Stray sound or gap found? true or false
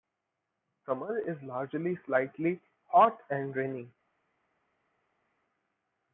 false